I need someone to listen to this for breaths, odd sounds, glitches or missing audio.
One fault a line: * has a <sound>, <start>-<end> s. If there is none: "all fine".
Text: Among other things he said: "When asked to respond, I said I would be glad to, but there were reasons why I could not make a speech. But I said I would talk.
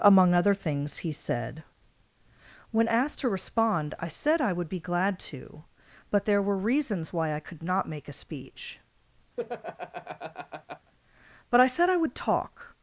* has a laugh, 9.4-10.9 s